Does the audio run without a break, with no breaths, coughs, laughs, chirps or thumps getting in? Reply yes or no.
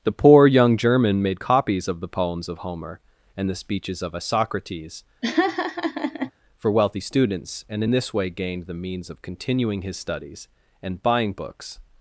no